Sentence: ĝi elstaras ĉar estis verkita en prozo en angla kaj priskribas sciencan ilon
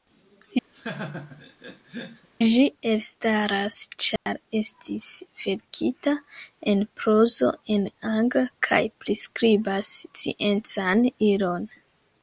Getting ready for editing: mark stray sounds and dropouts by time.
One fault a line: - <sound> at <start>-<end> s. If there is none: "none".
- laugh at 0.7-2.3 s
- dropout at 4.2-4.3 s